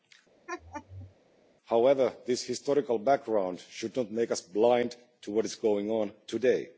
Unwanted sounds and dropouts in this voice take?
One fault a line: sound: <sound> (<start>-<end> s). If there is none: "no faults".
sound: laugh (0.5-1.1 s)